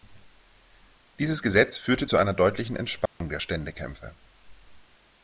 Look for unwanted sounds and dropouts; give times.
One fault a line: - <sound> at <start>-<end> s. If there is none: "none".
- dropout at 3.1-3.2 s